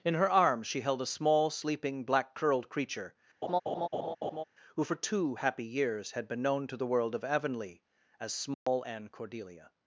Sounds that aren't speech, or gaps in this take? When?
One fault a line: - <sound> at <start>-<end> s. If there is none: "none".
- laugh at 3.4-4.4 s
- dropout at 8.5-8.7 s